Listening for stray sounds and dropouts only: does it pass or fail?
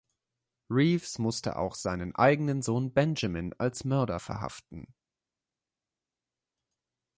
pass